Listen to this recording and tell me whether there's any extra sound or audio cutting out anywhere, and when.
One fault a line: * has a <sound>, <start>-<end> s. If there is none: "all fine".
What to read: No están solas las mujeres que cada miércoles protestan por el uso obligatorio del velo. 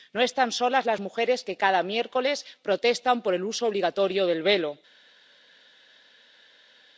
all fine